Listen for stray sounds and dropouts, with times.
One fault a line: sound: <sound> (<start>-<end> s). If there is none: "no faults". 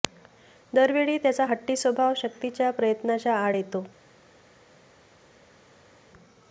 no faults